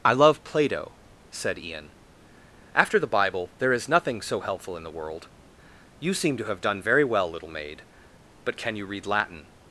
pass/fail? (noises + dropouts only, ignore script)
pass